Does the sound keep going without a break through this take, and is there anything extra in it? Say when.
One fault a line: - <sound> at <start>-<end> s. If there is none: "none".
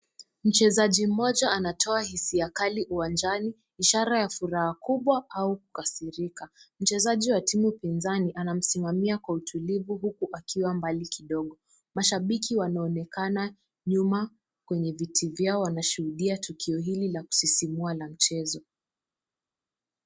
none